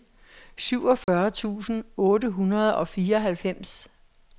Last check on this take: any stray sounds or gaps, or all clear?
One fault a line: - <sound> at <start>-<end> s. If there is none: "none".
- dropout at 1.0-1.1 s